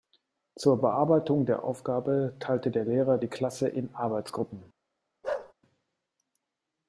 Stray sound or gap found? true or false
true